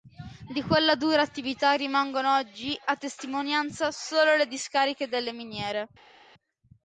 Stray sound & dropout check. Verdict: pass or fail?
pass